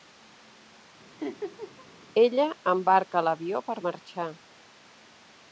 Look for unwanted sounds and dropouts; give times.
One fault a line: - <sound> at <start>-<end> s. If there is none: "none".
- laugh at 1.2-1.9 s